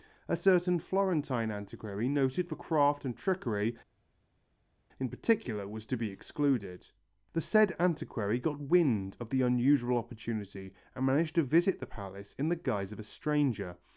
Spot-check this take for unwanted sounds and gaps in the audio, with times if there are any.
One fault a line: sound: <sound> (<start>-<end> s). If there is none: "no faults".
no faults